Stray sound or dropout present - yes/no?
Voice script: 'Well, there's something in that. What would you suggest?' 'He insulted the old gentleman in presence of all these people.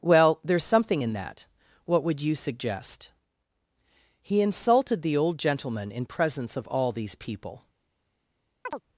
yes